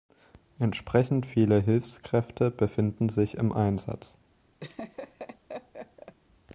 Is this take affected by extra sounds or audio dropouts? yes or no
yes